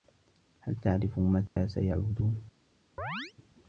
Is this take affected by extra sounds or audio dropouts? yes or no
yes